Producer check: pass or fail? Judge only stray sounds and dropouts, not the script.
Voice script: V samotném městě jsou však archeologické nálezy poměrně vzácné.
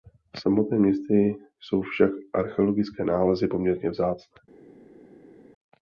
pass